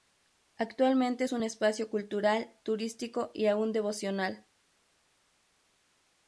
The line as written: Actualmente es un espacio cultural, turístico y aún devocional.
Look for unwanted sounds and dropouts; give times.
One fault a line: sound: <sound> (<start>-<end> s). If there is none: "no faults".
no faults